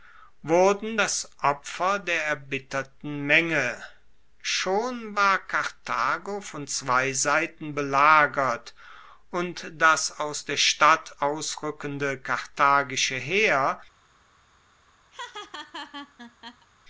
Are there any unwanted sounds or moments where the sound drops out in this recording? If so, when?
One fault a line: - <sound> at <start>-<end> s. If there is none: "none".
- laugh at 15.1-16.7 s